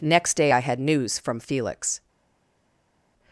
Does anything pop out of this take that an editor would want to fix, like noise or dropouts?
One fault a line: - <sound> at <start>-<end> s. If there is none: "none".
none